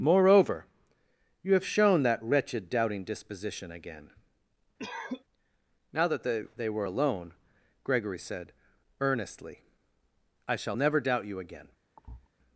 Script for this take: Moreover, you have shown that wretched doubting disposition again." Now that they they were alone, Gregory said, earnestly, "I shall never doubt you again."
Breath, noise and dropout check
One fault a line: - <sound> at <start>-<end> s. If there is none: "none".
- cough at 4.8-5.2 s
- thud at 12.0-12.3 s